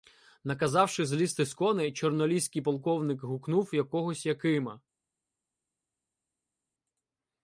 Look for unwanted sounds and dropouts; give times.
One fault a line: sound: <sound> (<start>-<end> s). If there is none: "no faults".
no faults